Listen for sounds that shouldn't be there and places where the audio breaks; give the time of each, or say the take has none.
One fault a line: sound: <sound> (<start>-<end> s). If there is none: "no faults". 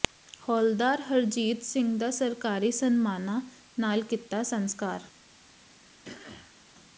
sound: throat clearing (6.0-6.6 s)